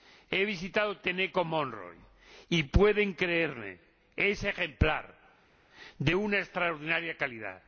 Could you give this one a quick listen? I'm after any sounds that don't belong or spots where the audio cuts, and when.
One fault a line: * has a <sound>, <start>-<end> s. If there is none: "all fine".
all fine